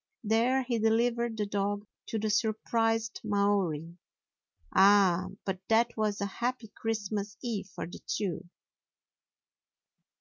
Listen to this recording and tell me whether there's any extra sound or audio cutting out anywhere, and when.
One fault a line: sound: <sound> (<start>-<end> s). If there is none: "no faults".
no faults